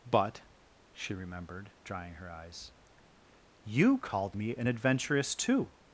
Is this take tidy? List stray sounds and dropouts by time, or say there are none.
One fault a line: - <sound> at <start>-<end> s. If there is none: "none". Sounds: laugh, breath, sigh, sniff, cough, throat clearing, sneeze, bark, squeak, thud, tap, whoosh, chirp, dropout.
none